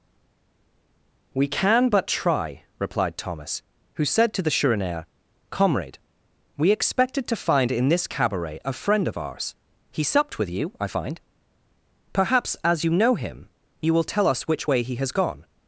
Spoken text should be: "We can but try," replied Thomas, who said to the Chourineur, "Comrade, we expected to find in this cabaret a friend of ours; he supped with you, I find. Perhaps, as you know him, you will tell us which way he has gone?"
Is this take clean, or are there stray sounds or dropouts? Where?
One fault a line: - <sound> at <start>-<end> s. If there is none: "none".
none